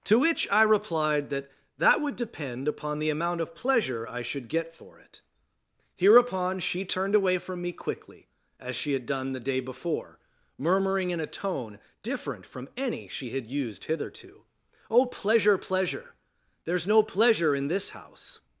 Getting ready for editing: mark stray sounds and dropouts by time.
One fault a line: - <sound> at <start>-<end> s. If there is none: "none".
none